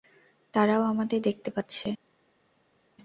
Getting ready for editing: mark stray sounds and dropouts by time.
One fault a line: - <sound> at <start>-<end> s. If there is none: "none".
none